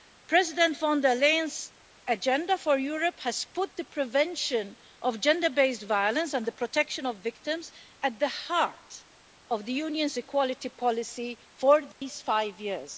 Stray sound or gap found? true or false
true